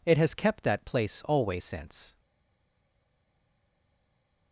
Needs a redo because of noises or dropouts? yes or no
no